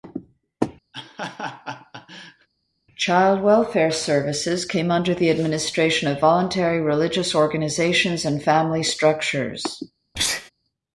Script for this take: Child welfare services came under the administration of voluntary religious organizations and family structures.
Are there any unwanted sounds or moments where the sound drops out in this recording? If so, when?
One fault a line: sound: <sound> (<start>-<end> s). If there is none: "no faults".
sound: laugh (0.9-2.5 s)
sound: sneeze (10.1-10.5 s)